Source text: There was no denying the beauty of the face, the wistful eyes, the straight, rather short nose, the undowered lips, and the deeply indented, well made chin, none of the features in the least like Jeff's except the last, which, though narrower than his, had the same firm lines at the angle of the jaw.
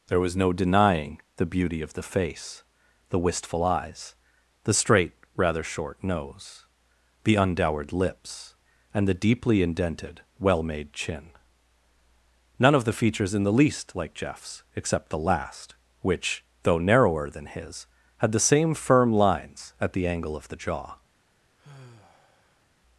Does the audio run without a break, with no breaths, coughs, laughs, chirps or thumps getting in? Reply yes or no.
no